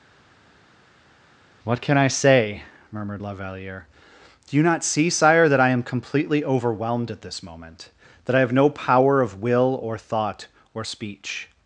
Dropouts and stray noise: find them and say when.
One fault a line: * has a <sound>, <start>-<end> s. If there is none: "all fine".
all fine